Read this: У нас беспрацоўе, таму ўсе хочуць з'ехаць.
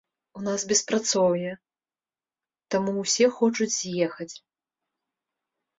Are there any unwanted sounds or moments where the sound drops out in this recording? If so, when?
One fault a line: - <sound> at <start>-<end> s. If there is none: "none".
none